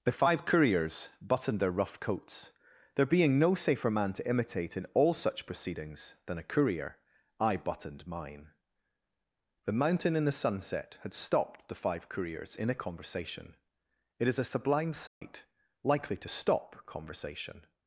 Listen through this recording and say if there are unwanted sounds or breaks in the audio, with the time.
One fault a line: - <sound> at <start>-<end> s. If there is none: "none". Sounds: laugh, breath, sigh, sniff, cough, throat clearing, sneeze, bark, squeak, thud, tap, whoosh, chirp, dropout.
- dropout at 15.1-15.2 s